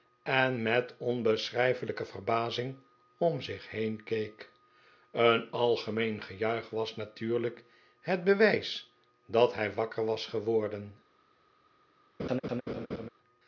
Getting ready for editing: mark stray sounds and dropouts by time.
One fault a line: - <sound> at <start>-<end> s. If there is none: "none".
- laugh at 12.2-13.1 s